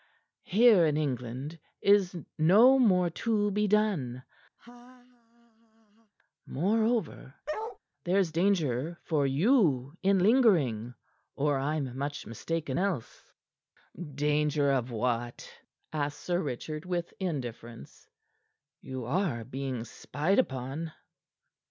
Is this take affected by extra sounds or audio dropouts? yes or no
yes